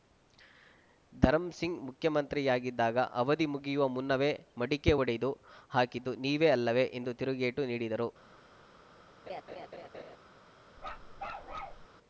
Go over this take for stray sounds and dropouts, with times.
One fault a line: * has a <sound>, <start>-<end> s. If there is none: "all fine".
* has a laugh, 9.3-10.2 s
* has a bark, 10.8-11.9 s